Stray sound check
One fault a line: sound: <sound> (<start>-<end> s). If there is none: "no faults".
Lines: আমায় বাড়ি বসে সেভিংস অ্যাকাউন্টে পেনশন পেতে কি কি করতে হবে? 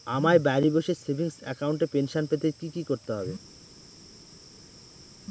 no faults